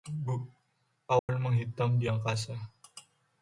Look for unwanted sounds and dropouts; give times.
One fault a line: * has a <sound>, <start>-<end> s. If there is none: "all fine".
* has a dropout, 1.2-1.3 s